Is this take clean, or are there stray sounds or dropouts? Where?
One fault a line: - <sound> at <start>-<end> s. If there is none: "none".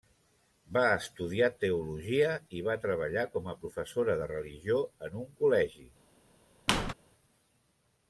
- squeak at 6.7-6.9 s